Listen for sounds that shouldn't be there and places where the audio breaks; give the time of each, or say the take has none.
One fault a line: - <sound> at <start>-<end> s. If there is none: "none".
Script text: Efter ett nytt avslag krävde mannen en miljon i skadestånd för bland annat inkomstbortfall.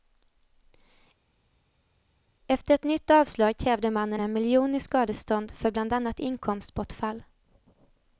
none